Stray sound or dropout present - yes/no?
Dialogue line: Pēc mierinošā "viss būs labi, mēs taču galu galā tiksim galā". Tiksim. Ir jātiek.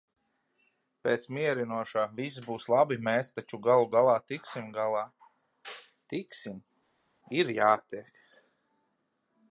no